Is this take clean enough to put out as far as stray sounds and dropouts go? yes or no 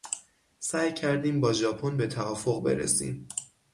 yes